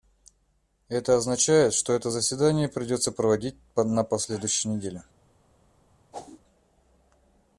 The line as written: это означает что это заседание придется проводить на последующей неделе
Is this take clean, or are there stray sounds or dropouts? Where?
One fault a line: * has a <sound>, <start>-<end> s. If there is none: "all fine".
* has a whoosh, 6.1-6.4 s